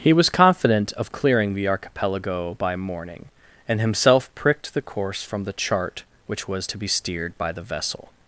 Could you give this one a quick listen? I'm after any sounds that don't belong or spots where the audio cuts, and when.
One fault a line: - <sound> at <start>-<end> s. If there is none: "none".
none